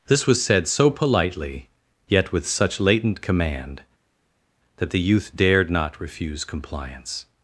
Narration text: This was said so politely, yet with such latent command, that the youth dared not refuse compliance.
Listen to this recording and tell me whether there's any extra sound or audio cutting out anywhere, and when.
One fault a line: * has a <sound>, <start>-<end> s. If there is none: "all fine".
all fine